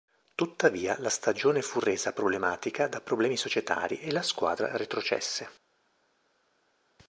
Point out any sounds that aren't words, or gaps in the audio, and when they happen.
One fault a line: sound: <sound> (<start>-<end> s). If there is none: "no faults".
no faults